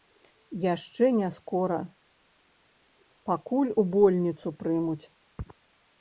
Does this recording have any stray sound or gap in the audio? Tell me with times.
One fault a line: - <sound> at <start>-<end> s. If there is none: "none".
none